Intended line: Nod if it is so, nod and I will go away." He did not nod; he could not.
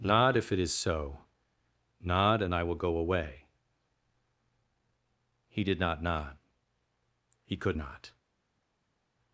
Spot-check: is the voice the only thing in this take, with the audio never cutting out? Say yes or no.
yes